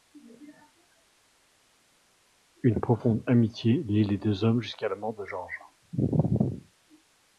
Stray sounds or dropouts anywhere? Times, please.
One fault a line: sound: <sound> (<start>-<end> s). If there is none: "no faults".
no faults